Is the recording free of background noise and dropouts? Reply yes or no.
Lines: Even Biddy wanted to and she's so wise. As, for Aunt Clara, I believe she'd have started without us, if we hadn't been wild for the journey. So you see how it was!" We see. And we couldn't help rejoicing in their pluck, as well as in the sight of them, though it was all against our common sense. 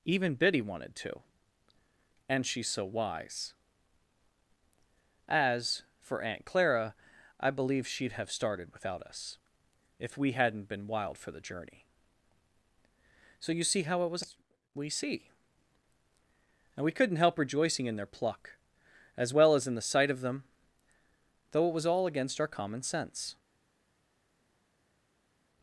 yes